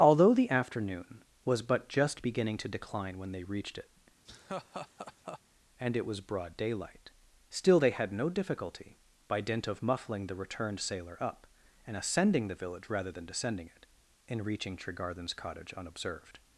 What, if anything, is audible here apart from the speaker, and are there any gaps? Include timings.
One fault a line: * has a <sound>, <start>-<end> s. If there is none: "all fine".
* has a laugh, 4.3-5.4 s